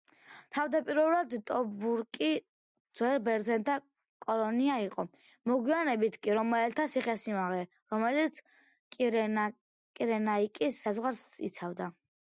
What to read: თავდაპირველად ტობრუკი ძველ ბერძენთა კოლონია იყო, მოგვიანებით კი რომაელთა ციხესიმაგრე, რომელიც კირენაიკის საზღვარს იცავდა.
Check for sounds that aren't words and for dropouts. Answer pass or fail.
pass